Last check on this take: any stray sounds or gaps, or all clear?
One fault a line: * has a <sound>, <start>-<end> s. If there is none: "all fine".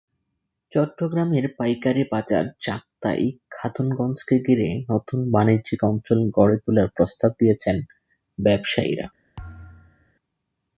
* has a thud, 9.4-10.1 s